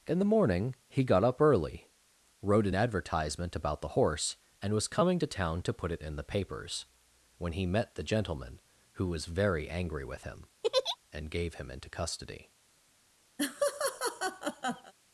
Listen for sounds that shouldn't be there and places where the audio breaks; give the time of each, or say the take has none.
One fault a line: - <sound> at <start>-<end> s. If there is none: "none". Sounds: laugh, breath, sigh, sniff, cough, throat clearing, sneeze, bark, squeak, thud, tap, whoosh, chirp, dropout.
- laugh at 10.6-11.0 s
- laugh at 13.4-14.9 s